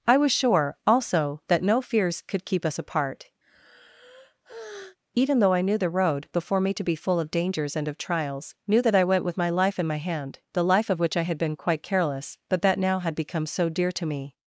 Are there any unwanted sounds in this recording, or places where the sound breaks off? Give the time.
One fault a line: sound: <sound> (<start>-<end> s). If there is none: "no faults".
sound: sigh (3.4-5.0 s)